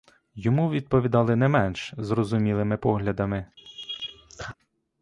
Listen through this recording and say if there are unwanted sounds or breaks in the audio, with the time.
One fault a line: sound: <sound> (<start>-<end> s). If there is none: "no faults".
sound: laugh (3.6-4.6 s)